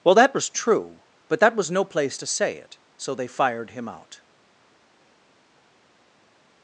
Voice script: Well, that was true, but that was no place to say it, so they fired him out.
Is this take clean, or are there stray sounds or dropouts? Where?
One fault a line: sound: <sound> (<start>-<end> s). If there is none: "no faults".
no faults